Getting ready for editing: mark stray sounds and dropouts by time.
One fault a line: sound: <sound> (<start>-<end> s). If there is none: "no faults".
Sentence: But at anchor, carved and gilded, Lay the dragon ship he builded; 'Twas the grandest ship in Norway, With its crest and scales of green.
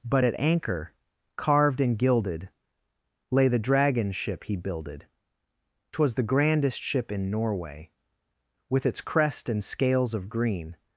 no faults